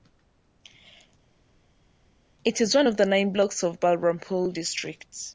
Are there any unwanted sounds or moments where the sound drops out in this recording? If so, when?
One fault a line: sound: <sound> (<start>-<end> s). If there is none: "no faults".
no faults